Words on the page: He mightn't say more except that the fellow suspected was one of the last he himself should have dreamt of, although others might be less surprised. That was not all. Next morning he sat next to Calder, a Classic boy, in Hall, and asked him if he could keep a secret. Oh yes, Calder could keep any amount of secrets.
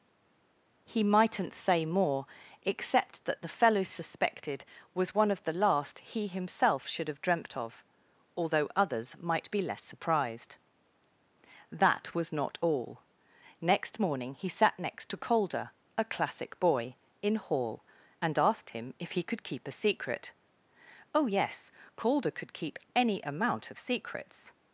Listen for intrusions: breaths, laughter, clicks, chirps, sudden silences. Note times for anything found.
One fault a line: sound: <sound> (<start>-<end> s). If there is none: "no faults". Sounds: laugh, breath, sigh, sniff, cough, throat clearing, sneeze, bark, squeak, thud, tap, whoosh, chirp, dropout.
no faults